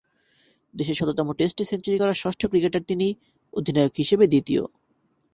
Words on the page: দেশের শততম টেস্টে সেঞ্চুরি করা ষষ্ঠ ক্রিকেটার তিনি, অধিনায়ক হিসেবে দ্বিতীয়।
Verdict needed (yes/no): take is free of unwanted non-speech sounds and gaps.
yes